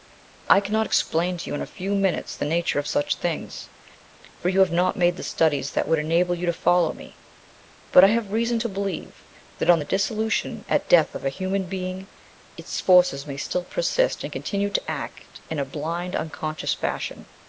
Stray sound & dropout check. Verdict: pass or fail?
pass